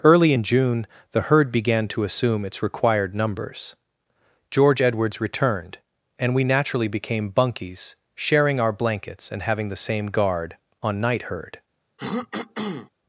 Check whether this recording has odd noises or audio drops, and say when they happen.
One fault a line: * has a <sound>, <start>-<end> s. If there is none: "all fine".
* has a throat clearing, 12.0-12.9 s